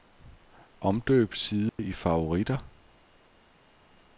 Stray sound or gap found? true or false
true